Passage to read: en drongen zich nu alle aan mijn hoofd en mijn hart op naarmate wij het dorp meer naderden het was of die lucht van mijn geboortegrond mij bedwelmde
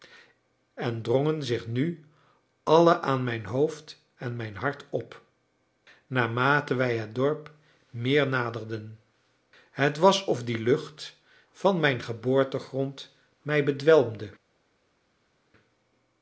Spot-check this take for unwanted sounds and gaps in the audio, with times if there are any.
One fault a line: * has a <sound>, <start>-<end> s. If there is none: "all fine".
all fine